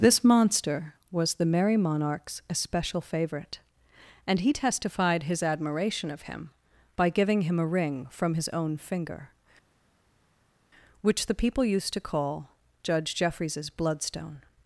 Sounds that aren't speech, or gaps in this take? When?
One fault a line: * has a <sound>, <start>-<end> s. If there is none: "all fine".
all fine